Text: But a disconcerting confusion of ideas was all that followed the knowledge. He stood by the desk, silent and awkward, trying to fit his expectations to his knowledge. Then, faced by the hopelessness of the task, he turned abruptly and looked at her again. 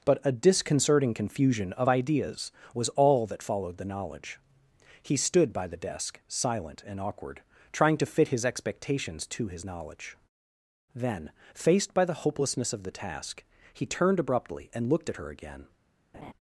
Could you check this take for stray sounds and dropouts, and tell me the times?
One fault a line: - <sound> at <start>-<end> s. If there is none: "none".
- laugh at 16.1-16.3 s